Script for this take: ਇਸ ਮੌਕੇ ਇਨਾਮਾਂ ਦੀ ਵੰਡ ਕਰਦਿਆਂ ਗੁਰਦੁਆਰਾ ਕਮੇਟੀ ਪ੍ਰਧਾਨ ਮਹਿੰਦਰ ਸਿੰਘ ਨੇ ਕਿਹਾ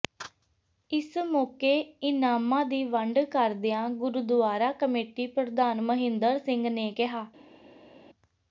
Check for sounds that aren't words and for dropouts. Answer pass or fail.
pass